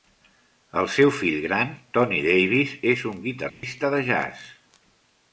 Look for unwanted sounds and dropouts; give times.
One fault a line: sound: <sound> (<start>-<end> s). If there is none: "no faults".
sound: dropout (3.5-3.6 s)